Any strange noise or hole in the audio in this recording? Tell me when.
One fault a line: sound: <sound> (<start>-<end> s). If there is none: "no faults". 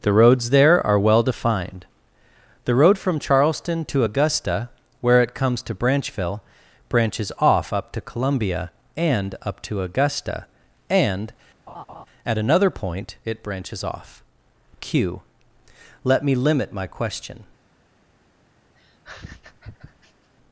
sound: laugh (11.7-12.1 s)
sound: laugh (18.8-20.3 s)